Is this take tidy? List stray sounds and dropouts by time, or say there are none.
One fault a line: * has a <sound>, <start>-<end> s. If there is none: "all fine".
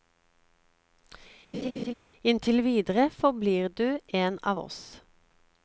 * has a laugh, 1.5-1.9 s